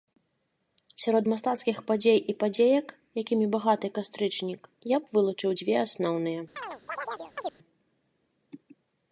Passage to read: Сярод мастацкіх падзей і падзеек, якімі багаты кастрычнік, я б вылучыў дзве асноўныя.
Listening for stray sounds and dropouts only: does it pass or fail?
fail